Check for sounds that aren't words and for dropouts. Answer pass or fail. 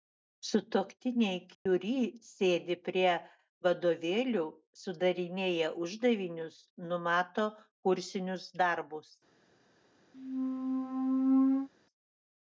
fail